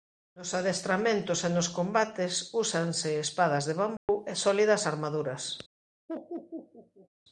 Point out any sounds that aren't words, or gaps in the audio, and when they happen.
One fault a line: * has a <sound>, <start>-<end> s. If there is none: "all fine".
* has a dropout, 4.0-4.1 s
* has a laugh, 6.1-7.1 s